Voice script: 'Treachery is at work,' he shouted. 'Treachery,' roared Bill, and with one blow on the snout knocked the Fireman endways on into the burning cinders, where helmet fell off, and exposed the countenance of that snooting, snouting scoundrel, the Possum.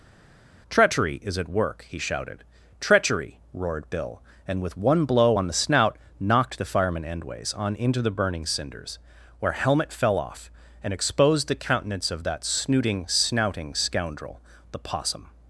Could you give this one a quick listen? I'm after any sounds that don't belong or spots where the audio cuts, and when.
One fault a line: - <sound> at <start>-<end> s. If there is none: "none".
none